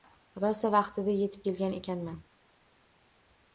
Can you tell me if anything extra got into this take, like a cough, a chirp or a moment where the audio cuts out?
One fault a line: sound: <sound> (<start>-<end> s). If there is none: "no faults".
no faults